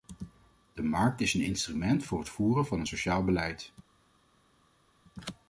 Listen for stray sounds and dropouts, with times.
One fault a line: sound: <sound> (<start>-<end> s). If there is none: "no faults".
no faults